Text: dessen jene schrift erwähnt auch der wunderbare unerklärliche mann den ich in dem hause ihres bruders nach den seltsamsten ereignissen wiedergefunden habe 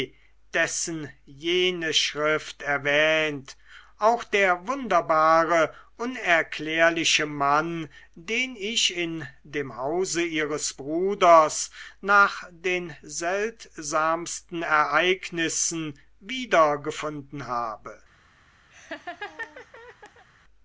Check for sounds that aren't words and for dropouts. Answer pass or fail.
fail